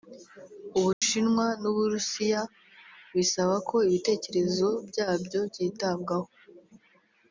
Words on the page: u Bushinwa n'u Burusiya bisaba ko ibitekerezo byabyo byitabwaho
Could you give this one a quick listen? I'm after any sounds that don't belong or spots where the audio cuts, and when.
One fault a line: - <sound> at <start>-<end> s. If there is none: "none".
- dropout at 0.9-1.0 s